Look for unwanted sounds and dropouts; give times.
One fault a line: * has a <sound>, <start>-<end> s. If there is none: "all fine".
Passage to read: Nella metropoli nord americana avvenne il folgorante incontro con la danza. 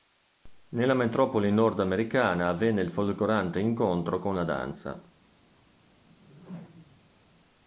* has a whoosh, 6.1-7.1 s